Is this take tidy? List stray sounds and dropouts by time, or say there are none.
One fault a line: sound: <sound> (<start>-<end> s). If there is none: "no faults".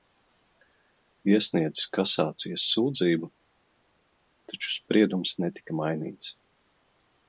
no faults